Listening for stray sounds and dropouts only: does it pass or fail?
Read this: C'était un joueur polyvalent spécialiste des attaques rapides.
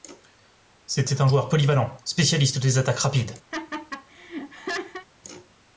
fail